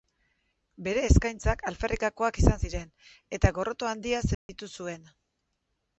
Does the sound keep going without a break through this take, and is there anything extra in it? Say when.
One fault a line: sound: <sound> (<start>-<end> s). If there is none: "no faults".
sound: dropout (4.3-4.5 s)